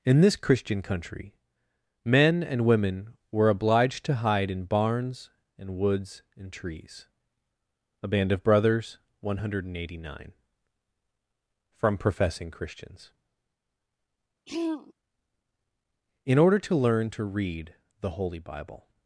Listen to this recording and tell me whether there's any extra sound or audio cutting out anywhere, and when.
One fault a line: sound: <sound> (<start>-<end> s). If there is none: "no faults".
sound: throat clearing (14.5-14.9 s)